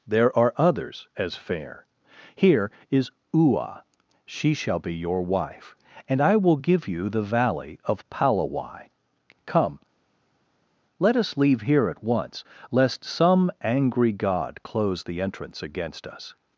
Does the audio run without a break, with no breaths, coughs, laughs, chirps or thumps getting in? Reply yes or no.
yes